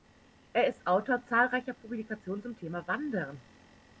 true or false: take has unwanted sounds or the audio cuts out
false